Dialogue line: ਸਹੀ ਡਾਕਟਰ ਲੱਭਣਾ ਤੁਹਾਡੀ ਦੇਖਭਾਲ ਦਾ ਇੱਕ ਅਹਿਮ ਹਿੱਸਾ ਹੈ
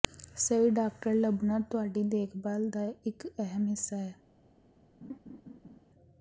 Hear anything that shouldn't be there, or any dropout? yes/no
yes